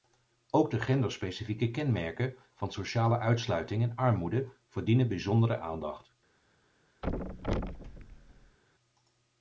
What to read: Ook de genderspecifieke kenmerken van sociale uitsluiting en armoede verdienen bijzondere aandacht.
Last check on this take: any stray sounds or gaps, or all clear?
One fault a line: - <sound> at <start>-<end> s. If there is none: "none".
- thud at 7.0-8.6 s